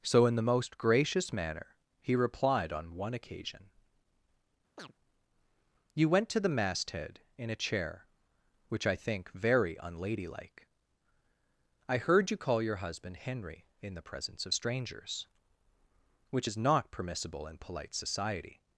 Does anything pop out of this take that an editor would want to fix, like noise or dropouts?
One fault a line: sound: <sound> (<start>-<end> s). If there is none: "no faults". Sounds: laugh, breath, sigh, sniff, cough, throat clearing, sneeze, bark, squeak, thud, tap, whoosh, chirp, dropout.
sound: chirp (4.8-4.9 s)